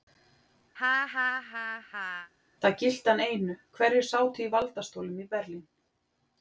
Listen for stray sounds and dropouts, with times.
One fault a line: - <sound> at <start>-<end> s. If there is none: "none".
- laugh at 0.8-2.3 s